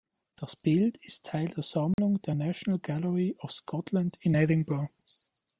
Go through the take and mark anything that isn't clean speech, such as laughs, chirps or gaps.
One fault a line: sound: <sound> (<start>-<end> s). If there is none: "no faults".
sound: dropout (1.9-2.0 s)